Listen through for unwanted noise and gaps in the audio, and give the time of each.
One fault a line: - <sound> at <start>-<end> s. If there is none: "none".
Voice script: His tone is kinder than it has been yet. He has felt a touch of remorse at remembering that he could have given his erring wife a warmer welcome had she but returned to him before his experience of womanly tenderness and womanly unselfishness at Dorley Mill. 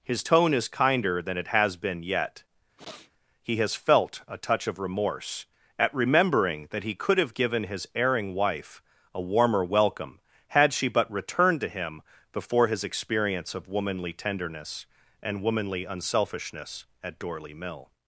- sniff at 2.8-3.1 s